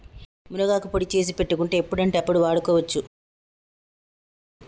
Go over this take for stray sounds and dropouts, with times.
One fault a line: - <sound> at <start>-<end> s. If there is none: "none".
none